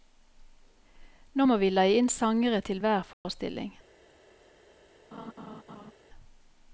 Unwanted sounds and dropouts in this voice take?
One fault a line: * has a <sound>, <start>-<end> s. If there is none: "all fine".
* has a dropout, 3.1-3.2 s
* has a laugh, 5.1-5.9 s